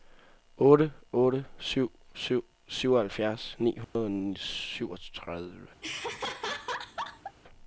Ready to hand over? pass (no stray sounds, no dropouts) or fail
fail